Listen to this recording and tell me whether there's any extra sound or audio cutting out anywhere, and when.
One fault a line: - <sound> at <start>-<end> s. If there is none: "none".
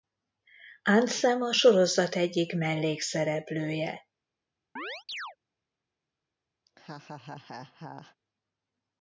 - chirp at 4.8-5.4 s
- laugh at 6.7-8.2 s